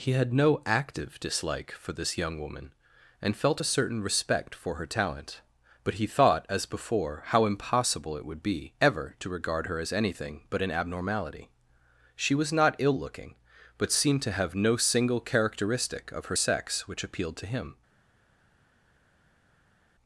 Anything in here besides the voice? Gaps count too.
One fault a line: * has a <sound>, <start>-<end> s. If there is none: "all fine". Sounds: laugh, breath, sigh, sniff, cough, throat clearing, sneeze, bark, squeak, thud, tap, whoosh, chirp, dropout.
all fine